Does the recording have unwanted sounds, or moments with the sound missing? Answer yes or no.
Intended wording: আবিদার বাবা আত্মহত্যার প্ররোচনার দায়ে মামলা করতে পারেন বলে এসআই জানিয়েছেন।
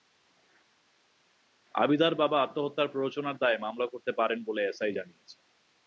no